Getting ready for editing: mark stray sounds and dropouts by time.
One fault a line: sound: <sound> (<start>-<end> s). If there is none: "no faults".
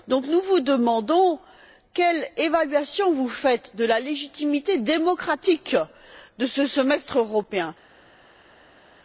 no faults